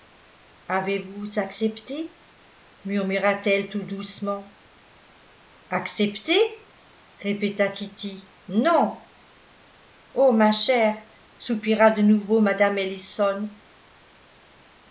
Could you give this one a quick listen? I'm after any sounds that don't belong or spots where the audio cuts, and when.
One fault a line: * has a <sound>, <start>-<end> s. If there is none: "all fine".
all fine